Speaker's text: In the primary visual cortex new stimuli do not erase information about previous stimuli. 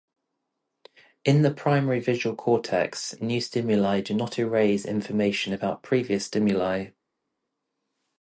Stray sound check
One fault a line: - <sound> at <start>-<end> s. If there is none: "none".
none